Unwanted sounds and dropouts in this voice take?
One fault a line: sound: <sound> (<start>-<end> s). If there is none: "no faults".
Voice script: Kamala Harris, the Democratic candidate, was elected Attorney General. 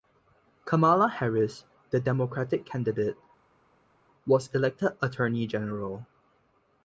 no faults